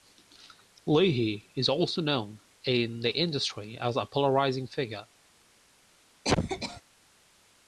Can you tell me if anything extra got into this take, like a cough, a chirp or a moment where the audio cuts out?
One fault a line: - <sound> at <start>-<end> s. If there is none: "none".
- cough at 6.2-6.8 s